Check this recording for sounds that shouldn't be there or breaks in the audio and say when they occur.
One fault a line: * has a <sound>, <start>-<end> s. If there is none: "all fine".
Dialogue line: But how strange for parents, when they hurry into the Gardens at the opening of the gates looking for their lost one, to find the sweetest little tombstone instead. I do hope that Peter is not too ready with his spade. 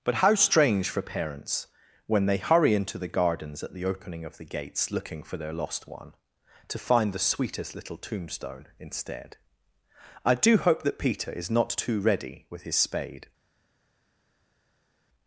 all fine